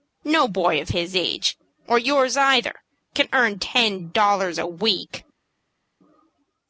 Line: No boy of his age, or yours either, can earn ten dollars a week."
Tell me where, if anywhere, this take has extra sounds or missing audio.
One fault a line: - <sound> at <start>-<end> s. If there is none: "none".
none